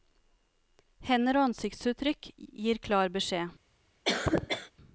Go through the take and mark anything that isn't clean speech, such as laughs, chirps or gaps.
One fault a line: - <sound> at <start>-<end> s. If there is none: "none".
- cough at 4.0-4.7 s